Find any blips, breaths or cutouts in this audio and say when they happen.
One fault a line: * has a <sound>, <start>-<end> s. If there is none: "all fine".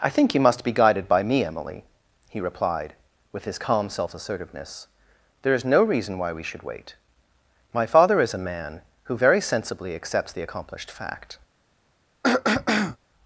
* has a throat clearing, 12.2-13.0 s